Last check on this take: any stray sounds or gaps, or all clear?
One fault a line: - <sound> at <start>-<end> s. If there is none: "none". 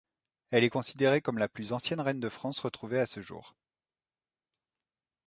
none